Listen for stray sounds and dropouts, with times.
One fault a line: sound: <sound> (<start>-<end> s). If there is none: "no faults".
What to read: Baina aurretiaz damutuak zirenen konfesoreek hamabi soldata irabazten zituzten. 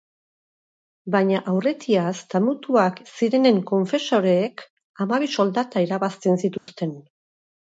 sound: dropout (6.6-6.7 s)